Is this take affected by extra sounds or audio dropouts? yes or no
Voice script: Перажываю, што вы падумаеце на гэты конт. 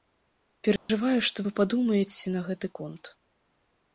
yes